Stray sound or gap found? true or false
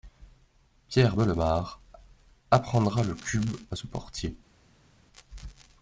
false